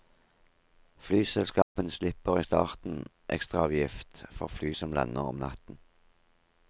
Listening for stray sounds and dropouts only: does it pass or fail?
fail